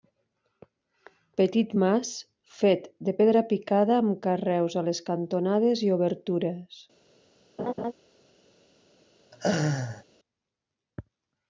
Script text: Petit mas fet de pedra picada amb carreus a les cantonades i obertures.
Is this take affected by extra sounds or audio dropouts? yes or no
yes